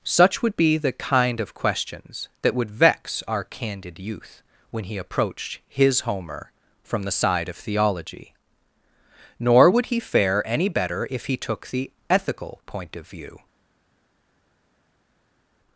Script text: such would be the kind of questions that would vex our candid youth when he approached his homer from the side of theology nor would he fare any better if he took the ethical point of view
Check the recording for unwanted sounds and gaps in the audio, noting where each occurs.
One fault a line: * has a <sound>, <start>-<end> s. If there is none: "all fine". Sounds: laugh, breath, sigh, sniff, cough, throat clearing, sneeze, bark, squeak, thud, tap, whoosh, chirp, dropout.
all fine